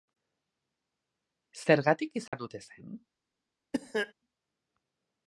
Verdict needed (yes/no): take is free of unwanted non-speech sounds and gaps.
no